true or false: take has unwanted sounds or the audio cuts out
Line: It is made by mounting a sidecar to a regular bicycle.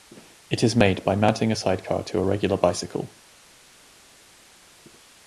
false